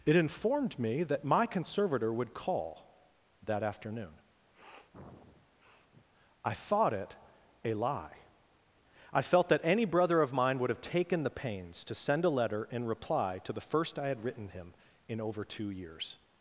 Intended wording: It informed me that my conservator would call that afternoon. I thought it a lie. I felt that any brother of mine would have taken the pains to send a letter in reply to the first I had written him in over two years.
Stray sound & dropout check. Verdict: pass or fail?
fail